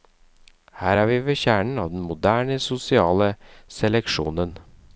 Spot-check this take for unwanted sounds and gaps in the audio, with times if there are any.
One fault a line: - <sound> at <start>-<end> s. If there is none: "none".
none